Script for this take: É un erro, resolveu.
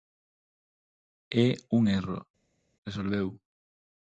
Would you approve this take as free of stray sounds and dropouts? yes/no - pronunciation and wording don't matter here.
yes